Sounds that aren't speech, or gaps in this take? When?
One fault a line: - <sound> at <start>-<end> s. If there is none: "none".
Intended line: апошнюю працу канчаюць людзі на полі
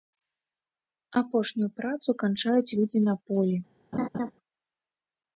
- laugh at 3.9-4.3 s